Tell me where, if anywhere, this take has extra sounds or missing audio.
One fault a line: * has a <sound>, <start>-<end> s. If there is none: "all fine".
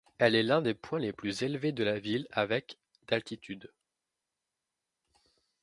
all fine